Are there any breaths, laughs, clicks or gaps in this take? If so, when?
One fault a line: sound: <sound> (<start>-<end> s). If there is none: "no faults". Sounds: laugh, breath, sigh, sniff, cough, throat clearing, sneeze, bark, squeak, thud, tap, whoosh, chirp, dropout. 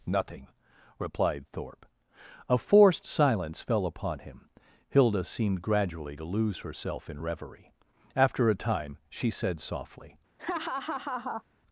sound: laugh (10.4-11.4 s)